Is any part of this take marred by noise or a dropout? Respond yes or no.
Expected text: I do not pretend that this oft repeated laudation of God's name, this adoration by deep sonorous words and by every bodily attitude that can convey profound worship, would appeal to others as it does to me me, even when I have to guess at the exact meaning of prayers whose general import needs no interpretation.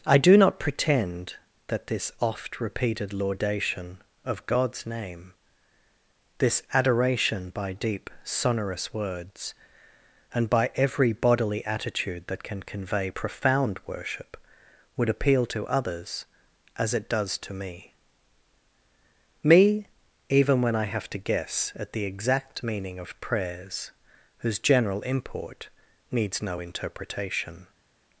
no